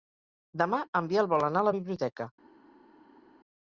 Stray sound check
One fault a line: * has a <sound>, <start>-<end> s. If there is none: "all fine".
all fine